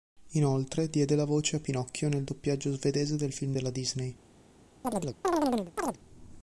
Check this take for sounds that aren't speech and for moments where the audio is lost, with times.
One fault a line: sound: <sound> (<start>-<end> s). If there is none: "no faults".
sound: chirp (4.8-6.0 s)